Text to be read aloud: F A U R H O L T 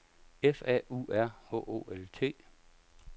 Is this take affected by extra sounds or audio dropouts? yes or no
no